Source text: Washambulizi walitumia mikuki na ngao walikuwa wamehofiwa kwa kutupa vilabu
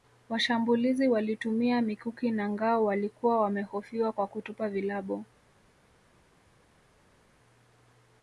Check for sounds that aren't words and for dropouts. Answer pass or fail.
pass